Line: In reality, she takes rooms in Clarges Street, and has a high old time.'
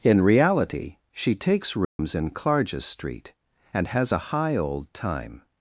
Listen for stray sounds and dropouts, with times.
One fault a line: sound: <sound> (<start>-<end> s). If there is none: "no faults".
sound: dropout (1.8-2.0 s)